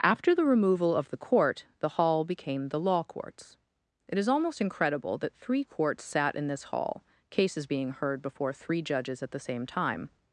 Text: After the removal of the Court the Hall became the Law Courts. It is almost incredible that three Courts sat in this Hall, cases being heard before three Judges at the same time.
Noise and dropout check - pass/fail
pass